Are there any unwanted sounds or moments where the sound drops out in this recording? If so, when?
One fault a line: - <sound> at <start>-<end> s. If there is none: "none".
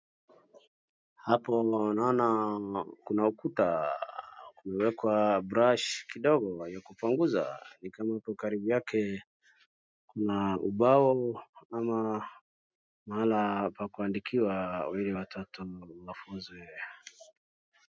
none